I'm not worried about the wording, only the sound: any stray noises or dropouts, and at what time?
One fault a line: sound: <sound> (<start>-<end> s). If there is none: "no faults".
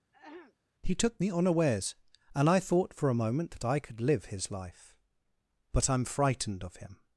sound: throat clearing (0.1-0.6 s)